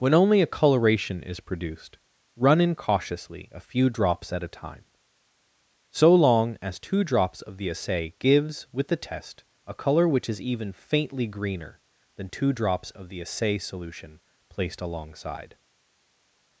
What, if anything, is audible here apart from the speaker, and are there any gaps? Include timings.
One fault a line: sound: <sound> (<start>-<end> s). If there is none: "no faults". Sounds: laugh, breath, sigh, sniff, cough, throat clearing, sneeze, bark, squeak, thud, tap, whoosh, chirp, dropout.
no faults